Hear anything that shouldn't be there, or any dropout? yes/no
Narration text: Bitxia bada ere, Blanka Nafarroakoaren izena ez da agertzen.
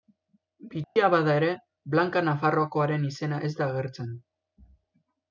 yes